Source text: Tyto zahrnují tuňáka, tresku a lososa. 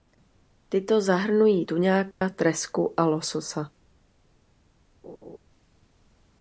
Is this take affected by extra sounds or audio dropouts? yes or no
yes